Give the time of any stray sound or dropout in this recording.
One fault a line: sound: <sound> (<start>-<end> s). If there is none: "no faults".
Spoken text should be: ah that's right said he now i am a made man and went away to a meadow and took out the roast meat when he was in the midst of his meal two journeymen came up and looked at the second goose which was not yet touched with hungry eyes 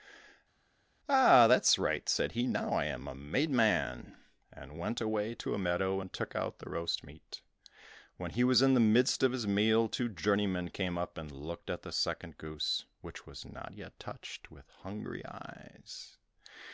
no faults